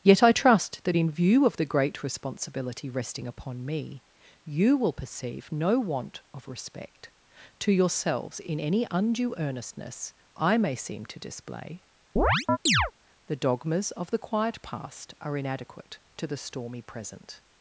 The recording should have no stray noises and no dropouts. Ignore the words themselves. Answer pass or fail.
fail